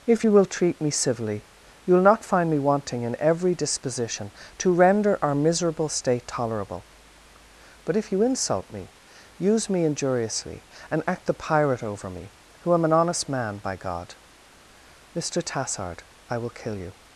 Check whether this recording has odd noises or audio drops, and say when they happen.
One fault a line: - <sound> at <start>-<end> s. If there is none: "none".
none